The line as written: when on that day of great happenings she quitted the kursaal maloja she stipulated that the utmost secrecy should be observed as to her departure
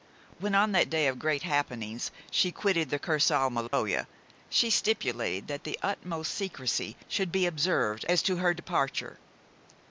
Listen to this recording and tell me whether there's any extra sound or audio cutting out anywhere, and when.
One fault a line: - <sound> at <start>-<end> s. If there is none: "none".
- dropout at 3.7-3.7 s